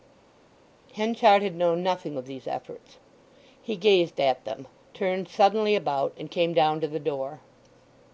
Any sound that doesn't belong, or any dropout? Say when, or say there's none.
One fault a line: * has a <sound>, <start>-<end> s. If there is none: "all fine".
all fine